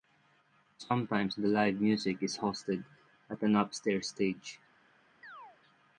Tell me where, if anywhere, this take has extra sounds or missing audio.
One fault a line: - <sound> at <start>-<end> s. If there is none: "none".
- chirp at 5.2-5.6 s